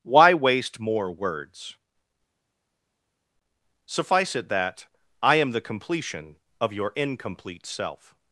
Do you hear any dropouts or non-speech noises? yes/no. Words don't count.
no